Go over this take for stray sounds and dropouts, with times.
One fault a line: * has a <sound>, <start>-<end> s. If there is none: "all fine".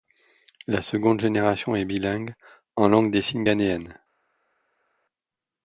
all fine